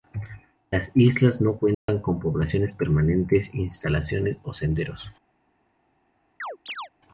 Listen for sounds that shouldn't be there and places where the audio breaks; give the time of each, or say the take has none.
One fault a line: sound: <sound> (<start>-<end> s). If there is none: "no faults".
sound: dropout (1.7-1.9 s)
sound: chirp (6.4-6.9 s)